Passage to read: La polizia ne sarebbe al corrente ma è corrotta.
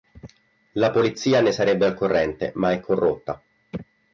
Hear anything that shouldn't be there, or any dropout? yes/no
no